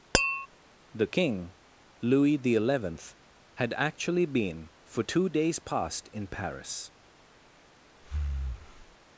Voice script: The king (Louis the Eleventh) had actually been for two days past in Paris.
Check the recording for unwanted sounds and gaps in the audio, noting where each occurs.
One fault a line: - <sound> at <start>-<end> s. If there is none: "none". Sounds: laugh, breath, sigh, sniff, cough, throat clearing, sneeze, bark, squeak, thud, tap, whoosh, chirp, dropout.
- tap at 0.1-0.5 s
- breath at 8.0-9.0 s